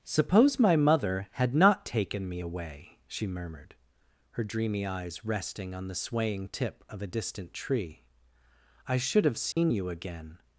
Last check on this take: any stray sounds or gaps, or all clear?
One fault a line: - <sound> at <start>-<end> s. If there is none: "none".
- dropout at 9.5-9.6 s